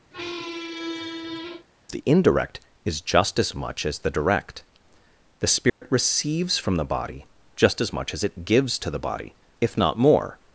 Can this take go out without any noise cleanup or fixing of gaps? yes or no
no